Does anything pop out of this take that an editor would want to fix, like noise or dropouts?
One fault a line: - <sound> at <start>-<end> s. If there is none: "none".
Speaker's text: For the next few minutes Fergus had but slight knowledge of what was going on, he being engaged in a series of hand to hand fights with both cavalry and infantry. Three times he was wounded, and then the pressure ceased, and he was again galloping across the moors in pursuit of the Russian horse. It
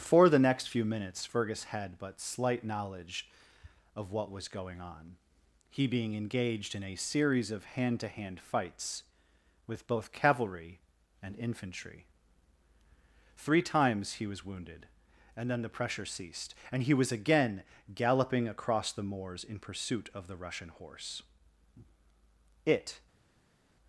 none